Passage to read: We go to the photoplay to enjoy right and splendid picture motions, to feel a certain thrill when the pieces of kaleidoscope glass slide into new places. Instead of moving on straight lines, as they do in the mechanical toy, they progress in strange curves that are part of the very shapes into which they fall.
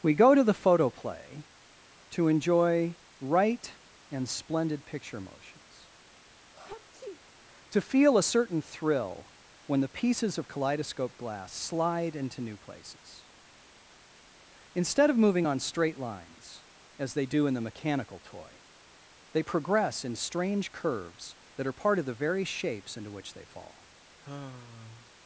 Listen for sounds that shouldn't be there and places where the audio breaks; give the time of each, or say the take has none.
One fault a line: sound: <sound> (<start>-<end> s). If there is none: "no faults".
sound: sneeze (6.5-7.2 s)
sound: sigh (24.2-25.1 s)